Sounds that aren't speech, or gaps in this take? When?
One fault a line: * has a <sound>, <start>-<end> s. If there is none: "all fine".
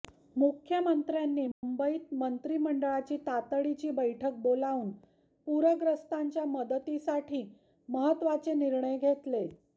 * has a dropout, 1.5-1.6 s